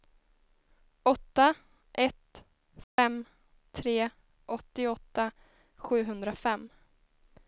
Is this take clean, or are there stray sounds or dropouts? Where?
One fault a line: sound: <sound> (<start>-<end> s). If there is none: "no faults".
sound: dropout (2.8-3.0 s)